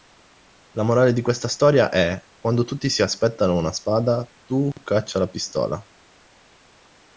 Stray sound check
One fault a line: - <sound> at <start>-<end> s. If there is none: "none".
none